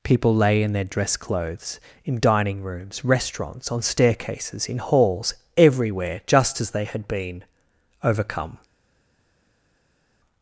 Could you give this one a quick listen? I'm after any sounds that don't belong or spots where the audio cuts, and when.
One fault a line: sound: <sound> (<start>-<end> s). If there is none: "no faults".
no faults